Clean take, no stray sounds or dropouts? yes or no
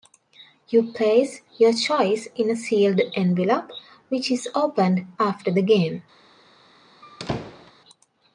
no